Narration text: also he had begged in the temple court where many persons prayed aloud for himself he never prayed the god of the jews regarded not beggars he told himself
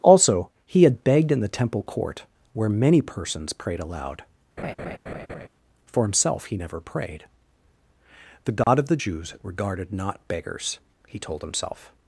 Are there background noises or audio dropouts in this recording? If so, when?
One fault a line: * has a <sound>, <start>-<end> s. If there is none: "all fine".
* has a laugh, 4.6-5.5 s
* has a dropout, 8.6-8.7 s